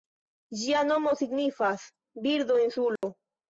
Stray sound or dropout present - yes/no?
yes